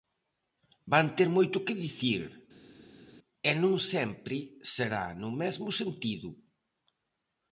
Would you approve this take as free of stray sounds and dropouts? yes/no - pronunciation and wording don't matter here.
yes